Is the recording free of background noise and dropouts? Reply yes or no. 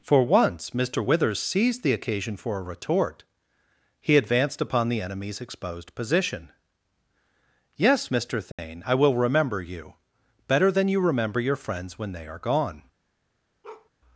no